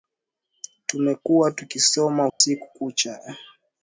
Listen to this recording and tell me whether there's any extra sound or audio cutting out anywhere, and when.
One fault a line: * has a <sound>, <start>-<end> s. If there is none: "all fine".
* has a dropout, 2.3-2.4 s